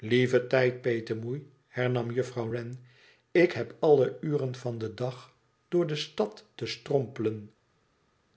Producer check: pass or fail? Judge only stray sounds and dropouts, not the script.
pass